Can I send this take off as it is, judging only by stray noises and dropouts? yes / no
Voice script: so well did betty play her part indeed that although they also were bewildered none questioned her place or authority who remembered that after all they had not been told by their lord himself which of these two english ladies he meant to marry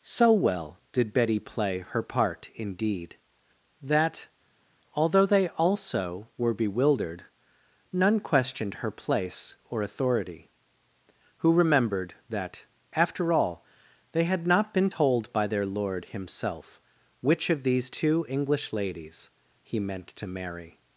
yes